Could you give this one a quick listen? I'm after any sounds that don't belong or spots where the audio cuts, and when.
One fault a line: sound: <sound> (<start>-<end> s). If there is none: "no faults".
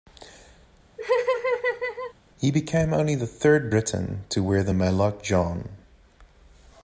sound: laugh (1.0-2.1 s)